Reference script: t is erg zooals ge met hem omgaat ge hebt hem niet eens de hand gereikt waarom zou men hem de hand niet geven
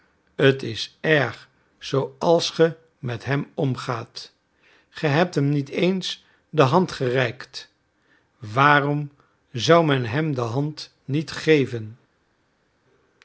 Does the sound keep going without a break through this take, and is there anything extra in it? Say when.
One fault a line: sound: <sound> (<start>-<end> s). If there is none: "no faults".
no faults